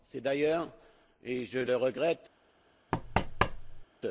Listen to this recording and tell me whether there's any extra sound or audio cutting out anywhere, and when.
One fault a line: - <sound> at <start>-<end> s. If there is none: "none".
- thud at 2.9-3.8 s